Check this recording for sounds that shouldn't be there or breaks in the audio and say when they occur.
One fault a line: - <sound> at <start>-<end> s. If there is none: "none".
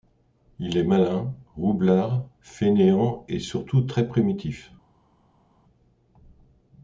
none